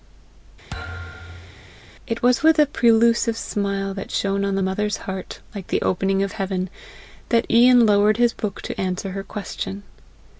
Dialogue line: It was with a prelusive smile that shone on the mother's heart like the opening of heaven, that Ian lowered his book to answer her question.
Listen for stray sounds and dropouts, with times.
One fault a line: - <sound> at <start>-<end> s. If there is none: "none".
- thud at 0.7-1.8 s